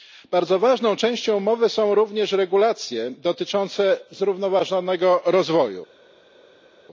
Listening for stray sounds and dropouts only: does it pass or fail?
pass